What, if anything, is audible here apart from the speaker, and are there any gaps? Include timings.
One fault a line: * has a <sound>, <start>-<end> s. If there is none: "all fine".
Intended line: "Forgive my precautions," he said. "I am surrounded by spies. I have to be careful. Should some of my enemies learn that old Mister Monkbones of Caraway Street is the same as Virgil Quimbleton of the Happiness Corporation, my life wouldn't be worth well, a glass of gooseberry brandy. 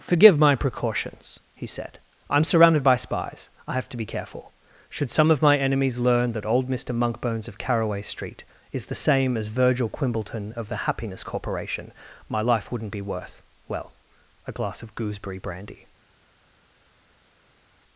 all fine